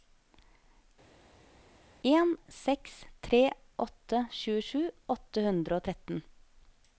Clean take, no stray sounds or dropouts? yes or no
yes